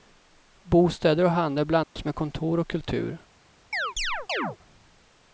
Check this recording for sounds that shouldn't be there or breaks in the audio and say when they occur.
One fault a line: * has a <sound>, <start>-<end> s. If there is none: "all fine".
* has a dropout, 1.8-2.0 s
* has a chirp, 3.7-4.6 s